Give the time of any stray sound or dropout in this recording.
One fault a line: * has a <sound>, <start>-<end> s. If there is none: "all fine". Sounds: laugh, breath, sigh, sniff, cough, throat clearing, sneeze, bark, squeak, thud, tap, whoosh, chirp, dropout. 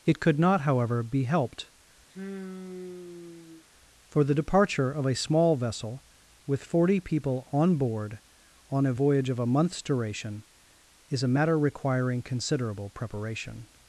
* has a sigh, 2.1-3.6 s